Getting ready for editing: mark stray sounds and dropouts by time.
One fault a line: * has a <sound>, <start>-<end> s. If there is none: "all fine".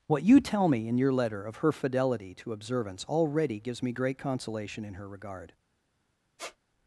* has a squeak, 6.4-6.6 s